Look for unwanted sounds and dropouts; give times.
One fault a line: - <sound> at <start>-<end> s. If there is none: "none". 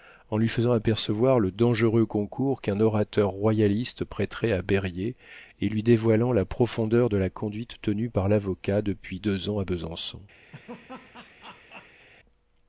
- laugh at 10.5-12.1 s